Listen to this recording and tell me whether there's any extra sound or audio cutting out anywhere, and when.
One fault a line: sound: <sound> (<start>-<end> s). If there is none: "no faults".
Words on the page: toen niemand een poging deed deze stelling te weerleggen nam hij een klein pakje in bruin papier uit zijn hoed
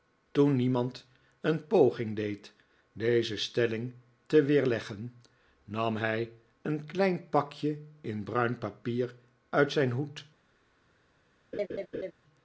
sound: laugh (11.5-12.1 s)